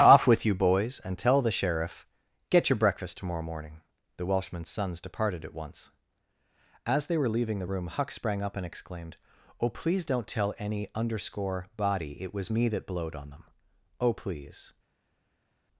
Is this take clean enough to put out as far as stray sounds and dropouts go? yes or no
yes